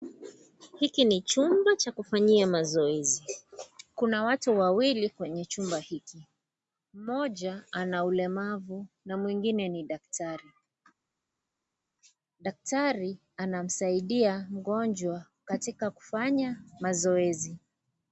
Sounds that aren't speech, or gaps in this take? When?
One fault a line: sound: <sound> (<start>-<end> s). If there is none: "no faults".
no faults